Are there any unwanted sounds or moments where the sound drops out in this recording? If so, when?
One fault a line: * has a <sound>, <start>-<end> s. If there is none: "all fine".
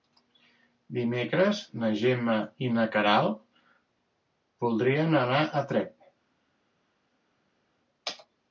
all fine